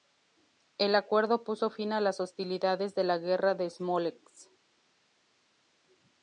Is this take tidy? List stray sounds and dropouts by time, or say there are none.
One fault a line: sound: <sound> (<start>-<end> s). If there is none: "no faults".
no faults